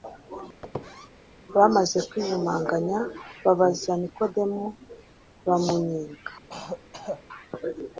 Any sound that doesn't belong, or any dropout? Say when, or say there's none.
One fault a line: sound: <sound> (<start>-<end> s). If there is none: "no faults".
sound: squeak (0.6-1.1 s)
sound: throat clearing (6.5-7.2 s)